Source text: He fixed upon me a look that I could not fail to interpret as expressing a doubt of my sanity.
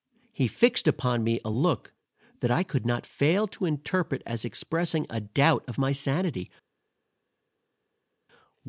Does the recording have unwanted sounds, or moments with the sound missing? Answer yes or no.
no